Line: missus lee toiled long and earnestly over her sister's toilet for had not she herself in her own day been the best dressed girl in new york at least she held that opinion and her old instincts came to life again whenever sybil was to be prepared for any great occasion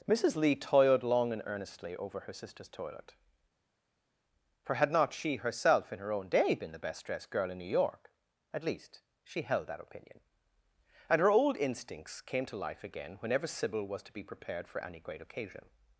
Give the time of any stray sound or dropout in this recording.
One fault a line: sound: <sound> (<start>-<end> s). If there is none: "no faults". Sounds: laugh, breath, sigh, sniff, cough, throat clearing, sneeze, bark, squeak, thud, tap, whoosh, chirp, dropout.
no faults